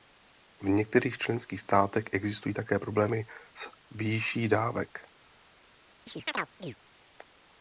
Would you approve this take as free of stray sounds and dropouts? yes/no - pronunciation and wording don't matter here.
no